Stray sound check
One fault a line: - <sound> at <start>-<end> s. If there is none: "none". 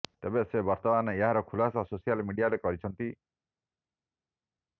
none